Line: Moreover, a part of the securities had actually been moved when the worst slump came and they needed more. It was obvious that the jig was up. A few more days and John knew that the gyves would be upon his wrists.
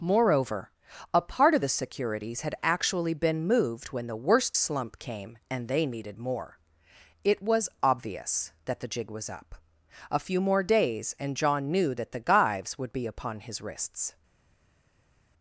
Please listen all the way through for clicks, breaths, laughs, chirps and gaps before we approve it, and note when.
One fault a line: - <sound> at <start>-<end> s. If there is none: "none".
none